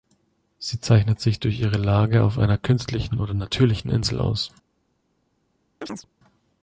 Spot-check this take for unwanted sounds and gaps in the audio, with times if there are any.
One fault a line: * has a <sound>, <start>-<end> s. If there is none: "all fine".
* has a chirp, 5.8-6.1 s